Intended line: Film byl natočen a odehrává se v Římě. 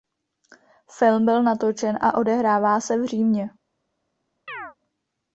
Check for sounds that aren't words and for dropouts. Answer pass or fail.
fail